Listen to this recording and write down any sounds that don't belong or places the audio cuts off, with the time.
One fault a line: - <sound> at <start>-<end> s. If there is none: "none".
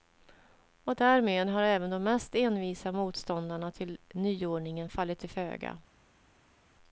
none